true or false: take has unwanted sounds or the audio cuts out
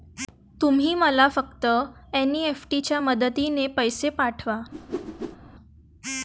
true